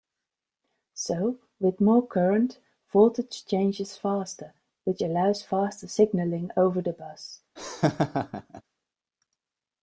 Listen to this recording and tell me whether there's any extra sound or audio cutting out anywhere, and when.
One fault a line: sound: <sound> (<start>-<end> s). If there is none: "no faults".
sound: laugh (7.6-8.6 s)